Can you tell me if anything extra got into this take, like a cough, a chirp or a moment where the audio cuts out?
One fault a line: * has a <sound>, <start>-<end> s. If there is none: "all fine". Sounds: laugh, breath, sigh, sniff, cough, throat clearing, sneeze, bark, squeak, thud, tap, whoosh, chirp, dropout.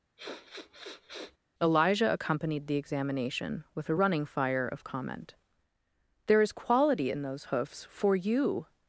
* has a sniff, 0.2-1.4 s